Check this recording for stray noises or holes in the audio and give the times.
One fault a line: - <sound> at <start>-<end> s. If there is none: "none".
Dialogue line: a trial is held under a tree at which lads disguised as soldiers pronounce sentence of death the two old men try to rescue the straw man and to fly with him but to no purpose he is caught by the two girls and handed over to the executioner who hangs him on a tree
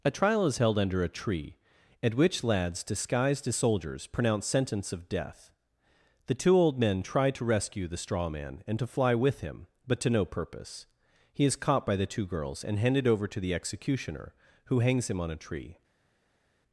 none